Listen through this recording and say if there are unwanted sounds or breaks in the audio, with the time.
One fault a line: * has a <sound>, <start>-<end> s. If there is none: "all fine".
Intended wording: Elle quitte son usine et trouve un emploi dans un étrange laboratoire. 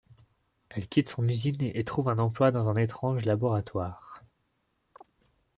* has a chirp, 4.9-5.1 s